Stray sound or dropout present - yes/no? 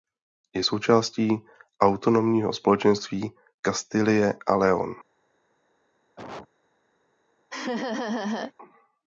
yes